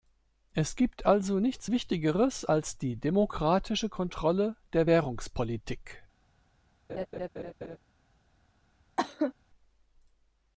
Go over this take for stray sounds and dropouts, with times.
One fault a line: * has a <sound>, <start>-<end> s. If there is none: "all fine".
* has a laugh, 6.9-7.8 s
* has a cough, 9.0-9.3 s